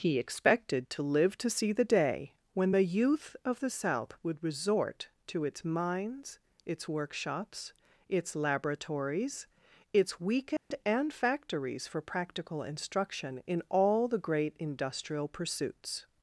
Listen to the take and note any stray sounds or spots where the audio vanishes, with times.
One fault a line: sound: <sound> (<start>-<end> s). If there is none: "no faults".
sound: dropout (10.6-10.7 s)